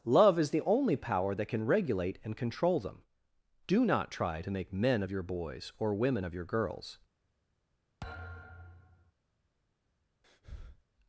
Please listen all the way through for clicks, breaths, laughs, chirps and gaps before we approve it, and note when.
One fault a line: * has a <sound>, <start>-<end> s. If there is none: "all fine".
* has a thud, 8.0-9.1 s
* has a breath, 10.2-10.8 s